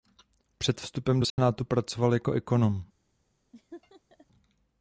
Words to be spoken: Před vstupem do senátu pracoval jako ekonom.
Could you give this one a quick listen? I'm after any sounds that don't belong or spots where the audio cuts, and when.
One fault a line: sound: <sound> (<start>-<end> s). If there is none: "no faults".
sound: dropout (1.3-1.4 s)
sound: laugh (3.5-4.3 s)